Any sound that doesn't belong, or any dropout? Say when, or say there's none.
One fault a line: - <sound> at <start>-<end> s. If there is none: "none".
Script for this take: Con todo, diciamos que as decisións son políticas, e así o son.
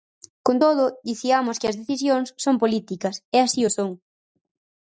none